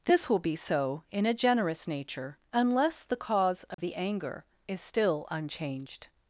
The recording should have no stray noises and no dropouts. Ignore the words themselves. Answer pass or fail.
fail